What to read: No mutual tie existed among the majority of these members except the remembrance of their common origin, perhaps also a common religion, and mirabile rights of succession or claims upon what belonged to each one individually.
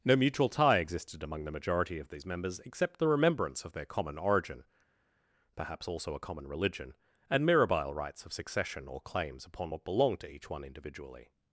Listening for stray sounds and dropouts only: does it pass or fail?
pass